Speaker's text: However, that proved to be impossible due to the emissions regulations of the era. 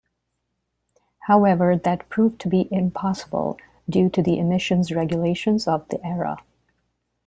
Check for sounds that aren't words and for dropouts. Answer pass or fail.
pass